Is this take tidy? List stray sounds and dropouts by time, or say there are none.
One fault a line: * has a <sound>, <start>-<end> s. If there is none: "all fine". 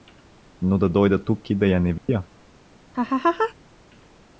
* has a dropout, 2.0-2.1 s
* has a laugh, 2.9-3.5 s